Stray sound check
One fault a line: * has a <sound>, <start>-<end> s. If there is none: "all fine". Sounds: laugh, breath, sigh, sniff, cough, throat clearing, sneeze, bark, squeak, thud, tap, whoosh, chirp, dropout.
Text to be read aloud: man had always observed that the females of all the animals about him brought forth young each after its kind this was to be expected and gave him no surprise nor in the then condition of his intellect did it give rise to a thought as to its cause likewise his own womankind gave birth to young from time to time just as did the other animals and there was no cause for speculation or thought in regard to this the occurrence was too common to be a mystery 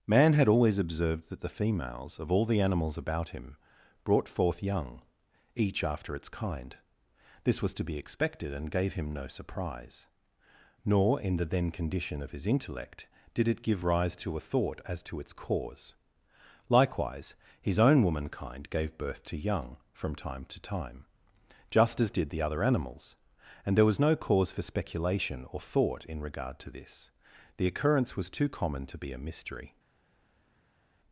all fine